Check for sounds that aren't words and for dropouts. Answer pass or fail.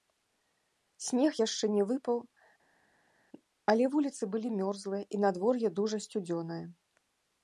pass